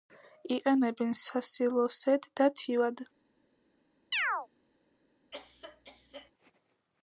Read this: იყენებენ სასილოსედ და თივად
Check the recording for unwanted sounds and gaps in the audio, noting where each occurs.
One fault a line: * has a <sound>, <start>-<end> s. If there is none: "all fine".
* has a chirp, 4.1-4.5 s
* has a cough, 5.3-6.3 s